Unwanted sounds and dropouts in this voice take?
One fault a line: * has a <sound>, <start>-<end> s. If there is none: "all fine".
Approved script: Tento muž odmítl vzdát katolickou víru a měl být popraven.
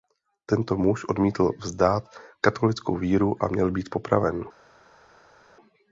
all fine